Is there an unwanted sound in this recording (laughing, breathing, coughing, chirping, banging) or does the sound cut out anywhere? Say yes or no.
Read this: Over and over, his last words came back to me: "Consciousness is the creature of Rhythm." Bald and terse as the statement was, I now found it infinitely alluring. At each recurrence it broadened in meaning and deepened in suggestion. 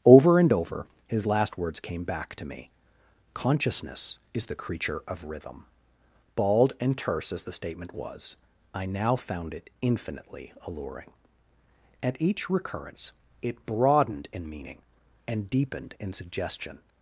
no